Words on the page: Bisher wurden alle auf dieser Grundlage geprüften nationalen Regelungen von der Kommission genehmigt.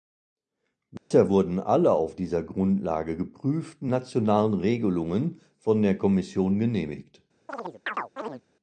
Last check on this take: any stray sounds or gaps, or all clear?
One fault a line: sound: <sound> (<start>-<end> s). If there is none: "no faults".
sound: dropout (1.0-1.1 s)
sound: chirp (7.5-8.4 s)